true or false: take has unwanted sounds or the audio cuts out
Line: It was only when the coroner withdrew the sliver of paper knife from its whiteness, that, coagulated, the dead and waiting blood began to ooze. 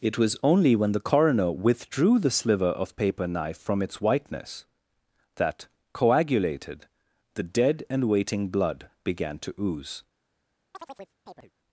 true